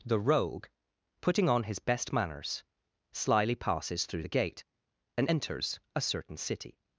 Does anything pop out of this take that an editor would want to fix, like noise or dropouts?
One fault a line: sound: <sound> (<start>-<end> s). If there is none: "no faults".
no faults